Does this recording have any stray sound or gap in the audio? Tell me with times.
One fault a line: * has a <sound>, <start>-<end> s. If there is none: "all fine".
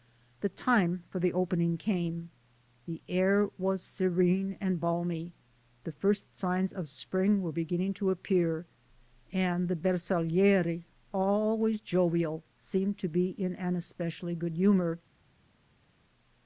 all fine